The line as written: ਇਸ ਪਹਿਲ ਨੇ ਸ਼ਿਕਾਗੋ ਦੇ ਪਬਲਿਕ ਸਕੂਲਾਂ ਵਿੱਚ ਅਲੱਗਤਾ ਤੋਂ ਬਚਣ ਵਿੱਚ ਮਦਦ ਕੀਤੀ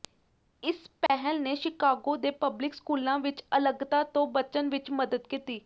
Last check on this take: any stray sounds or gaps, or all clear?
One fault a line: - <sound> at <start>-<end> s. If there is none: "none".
- dropout at 1.1-1.1 s